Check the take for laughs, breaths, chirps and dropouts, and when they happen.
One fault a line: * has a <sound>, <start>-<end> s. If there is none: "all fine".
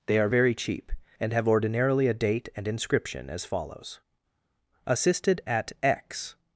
all fine